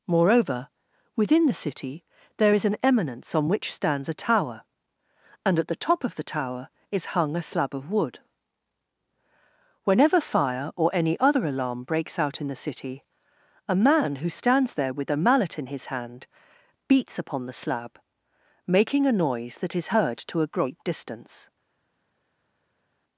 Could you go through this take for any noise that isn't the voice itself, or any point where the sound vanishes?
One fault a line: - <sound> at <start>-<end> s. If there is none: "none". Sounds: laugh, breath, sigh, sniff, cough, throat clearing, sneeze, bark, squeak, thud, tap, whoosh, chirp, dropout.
none